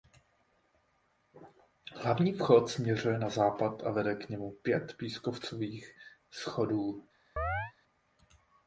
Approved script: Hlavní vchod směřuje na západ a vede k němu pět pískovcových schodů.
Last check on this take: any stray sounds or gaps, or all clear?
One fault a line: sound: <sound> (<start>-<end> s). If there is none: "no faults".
sound: chirp (7.4-7.7 s)